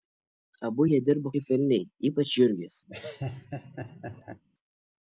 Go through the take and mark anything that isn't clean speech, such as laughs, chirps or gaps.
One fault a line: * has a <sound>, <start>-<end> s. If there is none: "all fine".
* has a laugh, 2.9-4.4 s